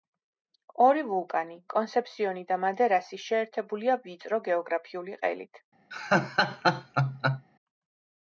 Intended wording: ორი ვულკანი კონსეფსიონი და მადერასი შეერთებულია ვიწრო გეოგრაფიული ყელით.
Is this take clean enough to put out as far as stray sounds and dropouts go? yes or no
no